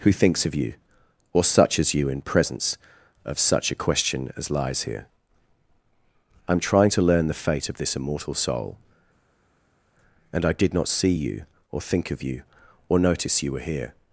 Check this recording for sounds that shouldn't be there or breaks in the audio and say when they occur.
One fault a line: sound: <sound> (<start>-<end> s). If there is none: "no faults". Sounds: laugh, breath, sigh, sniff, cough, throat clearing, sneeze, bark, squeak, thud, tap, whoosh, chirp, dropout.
no faults